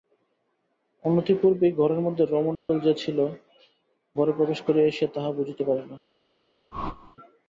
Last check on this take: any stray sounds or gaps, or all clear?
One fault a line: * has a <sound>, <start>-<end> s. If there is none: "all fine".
* has a dropout, 2.5-2.7 s
* has a whoosh, 6.7-7.2 s